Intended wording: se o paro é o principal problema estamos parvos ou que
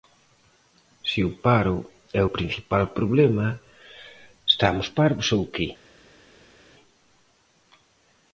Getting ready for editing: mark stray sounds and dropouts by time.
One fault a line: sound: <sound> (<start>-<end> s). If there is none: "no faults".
no faults